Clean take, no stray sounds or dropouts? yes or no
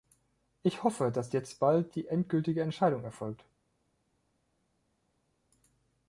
yes